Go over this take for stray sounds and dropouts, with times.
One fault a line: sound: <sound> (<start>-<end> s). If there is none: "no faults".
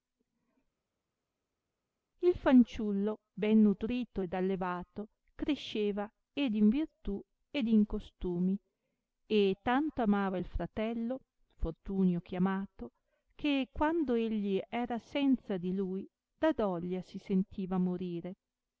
no faults